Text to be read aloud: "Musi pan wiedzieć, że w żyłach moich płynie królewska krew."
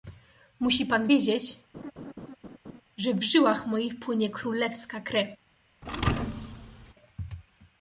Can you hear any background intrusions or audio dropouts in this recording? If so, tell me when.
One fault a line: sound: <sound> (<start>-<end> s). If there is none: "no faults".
sound: laugh (1.7-2.8 s)
sound: thud (5.8-6.9 s)